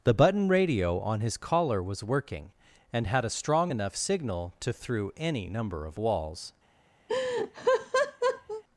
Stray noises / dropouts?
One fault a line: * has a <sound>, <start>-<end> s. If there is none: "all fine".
* has a laugh, 7.1-8.6 s